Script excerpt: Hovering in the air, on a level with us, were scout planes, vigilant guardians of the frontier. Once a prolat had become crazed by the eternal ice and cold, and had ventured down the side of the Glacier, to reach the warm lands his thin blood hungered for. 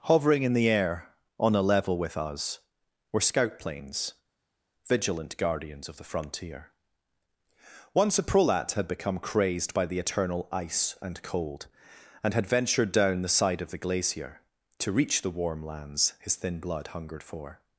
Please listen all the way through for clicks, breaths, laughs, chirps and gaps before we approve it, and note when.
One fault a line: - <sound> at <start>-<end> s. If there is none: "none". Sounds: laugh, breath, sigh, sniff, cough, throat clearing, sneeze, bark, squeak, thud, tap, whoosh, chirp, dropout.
none